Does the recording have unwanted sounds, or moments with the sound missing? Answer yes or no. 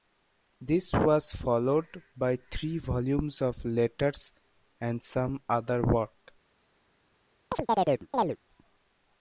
yes